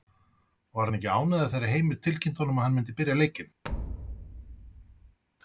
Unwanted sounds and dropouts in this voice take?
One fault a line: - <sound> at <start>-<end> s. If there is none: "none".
- thud at 3.6-5.2 s